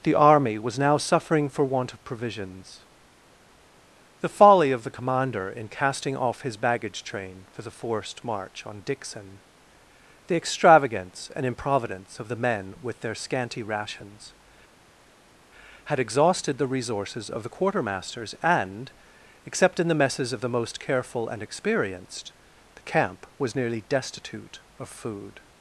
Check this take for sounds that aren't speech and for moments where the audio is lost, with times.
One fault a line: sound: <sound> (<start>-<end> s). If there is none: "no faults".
no faults